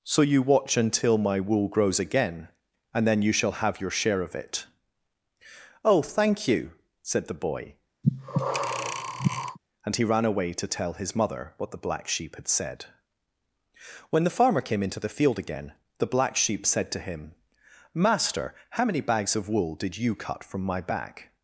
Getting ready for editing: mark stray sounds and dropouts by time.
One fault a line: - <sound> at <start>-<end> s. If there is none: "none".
- breath at 8.0-9.6 s